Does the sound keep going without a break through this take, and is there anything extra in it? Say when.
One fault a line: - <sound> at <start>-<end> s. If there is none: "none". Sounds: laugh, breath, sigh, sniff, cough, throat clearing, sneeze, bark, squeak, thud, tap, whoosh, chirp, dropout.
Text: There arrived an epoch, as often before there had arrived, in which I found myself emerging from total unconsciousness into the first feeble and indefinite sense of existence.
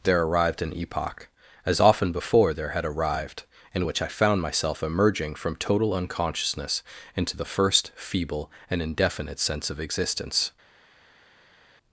none